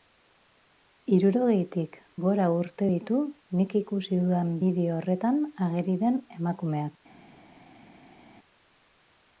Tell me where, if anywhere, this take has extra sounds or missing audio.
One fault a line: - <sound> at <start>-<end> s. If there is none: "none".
none